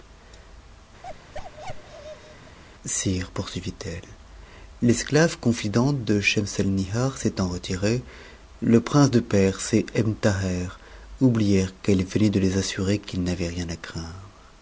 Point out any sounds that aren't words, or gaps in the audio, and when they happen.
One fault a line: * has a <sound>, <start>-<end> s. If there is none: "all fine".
* has a bark, 1.0-2.6 s